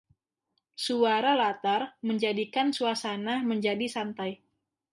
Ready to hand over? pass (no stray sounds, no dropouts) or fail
pass